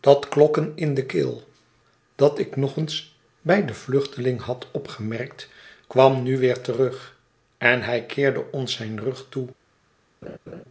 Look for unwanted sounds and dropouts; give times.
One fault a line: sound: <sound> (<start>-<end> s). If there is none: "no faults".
sound: laugh (10.2-10.6 s)